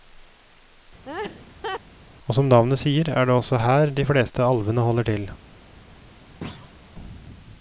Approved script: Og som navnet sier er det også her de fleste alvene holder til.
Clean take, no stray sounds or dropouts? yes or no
no